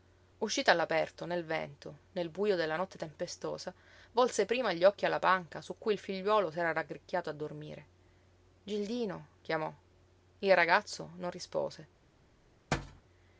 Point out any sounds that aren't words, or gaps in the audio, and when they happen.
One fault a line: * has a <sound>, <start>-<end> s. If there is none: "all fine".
* has a thud, 12.7-13.0 s